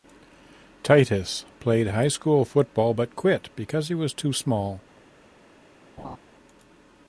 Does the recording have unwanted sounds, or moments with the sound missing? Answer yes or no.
yes